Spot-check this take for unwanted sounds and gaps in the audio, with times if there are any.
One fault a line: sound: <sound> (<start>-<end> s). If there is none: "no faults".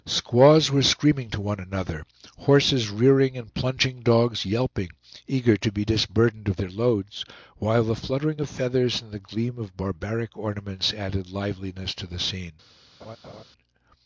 sound: laugh (13.0-13.4 s)